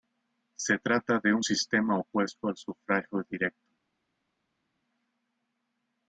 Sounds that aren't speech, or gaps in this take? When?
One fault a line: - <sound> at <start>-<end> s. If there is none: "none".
none